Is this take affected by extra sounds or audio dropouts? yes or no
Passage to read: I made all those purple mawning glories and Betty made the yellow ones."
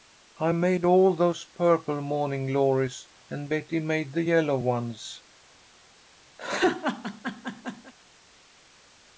yes